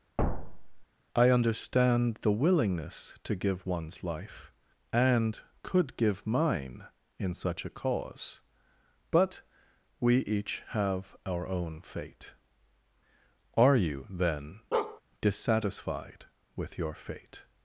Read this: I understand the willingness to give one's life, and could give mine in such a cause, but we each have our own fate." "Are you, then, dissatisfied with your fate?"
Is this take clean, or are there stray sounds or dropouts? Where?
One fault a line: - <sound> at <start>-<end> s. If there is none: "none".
- thud at 0.2-0.8 s
- bark at 14.7-15.0 s